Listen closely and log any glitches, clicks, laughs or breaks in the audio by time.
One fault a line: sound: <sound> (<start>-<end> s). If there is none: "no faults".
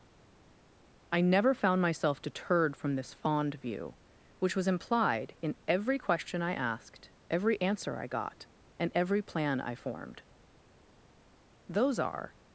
no faults